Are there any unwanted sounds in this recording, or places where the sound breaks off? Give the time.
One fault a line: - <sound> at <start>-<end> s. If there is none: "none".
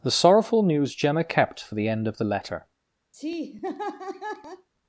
- laugh at 3.1-4.7 s